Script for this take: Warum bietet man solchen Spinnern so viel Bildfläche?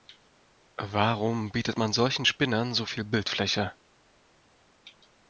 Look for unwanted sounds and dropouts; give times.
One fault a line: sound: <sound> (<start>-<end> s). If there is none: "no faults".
no faults